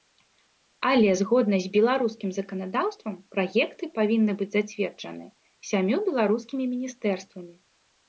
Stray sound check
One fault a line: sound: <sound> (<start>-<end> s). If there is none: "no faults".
no faults